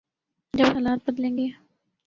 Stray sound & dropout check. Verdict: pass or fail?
pass